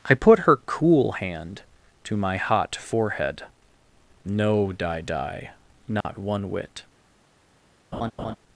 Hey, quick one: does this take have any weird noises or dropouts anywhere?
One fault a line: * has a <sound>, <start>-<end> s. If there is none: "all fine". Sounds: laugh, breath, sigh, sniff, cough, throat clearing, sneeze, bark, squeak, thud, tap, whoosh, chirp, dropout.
* has a dropout, 6.0-6.0 s
* has a laugh, 7.9-8.4 s